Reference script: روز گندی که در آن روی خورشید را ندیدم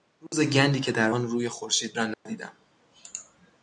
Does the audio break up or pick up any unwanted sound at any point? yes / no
yes